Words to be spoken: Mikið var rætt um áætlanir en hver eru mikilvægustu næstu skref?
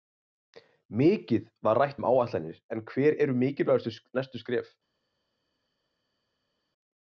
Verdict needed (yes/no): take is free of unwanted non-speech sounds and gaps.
yes